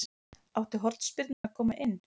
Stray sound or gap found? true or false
true